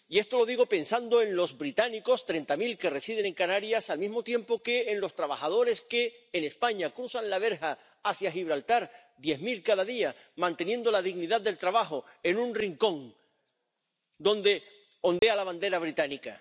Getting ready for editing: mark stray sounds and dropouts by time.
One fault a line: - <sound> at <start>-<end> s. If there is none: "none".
- dropout at 15.2-15.2 s